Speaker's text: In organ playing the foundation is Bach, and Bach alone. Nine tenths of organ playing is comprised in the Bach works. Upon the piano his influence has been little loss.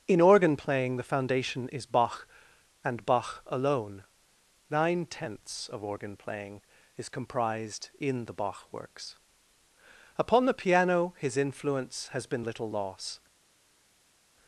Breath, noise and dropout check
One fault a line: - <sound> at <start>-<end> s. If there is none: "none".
none